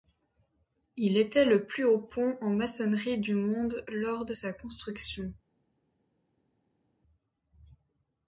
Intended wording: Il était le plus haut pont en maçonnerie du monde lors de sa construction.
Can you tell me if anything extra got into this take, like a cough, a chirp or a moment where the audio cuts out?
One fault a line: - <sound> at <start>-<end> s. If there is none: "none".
none